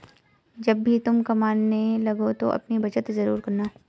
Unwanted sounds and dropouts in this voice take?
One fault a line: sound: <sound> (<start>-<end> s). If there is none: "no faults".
no faults